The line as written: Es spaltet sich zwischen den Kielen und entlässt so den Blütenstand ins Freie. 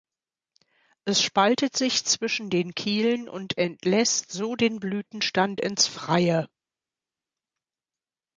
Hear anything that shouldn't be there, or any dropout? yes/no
no